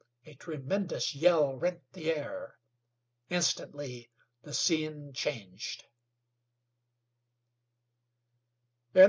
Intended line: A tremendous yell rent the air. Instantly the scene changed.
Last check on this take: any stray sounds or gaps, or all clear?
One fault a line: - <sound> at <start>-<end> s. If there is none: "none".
none